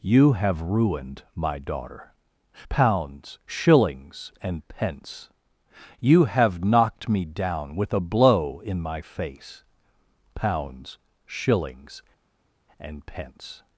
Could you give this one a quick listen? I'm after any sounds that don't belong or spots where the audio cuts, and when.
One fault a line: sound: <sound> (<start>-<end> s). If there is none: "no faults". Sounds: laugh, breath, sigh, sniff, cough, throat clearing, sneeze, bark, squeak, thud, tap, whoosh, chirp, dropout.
no faults